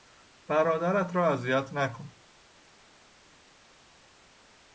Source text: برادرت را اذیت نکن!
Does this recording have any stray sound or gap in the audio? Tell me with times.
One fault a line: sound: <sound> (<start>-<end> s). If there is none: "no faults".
no faults